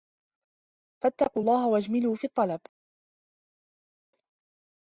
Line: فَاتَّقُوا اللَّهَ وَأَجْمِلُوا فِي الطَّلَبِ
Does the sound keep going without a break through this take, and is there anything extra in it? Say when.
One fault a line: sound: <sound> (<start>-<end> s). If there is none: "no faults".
no faults